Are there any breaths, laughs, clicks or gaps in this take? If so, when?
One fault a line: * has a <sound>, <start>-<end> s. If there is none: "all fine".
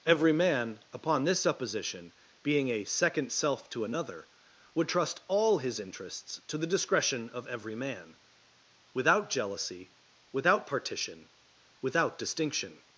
all fine